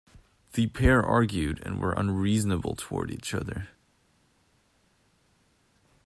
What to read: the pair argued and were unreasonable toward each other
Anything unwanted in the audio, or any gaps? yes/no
no